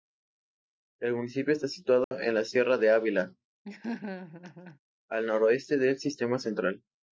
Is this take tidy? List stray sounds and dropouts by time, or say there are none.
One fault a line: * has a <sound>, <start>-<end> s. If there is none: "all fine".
* has a dropout, 2.0-2.1 s
* has a laugh, 3.6-4.8 s